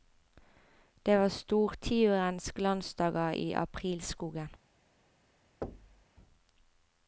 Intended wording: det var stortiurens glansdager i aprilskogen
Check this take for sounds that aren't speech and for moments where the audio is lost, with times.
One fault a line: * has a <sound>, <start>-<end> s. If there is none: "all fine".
* has a thud, 5.6-6.1 s